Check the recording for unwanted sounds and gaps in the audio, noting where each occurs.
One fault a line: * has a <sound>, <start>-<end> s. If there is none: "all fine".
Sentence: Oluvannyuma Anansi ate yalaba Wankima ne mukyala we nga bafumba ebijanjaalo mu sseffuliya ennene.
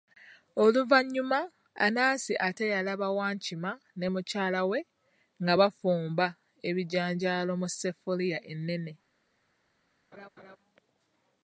* has a laugh, 10.1-10.6 s